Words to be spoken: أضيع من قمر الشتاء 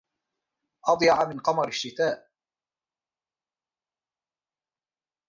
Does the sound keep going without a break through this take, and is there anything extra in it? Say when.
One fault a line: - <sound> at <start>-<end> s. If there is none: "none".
none